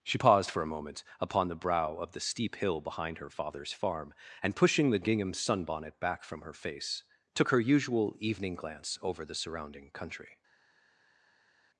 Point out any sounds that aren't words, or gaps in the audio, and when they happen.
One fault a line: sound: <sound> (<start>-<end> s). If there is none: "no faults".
no faults